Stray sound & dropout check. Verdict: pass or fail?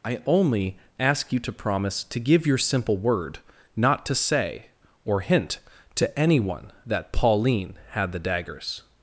pass